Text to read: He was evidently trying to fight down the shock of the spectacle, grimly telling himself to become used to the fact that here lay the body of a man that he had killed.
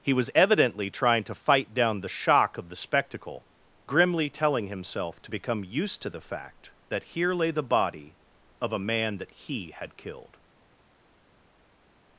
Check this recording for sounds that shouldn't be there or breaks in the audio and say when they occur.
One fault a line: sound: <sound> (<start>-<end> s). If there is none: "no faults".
no faults